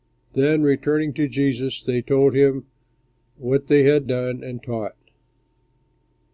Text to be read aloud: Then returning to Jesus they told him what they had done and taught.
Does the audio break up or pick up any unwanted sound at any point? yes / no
no